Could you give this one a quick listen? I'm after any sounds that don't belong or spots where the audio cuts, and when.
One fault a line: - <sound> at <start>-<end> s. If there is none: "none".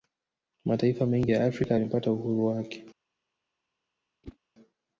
- whoosh at 4.2-4.4 s